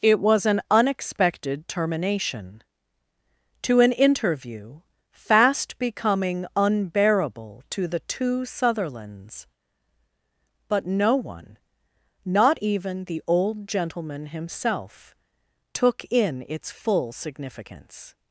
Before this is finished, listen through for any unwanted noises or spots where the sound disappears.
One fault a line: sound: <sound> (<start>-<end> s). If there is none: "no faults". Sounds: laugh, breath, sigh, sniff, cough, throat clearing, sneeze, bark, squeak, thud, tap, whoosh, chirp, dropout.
no faults